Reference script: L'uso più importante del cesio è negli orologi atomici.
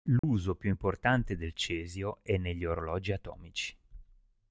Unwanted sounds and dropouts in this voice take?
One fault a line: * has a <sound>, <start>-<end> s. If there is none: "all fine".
* has a dropout, 0.2-0.2 s